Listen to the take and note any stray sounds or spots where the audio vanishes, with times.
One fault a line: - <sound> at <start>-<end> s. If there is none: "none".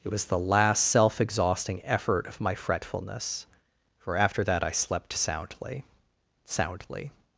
none